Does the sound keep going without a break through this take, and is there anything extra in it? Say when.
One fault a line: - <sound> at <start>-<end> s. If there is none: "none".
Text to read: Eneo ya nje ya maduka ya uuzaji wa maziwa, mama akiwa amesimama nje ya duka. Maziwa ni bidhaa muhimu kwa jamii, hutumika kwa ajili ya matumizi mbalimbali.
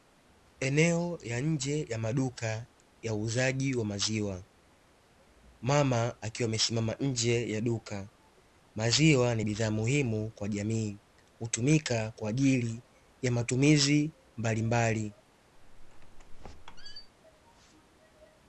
- squeak at 15.6-17.1 s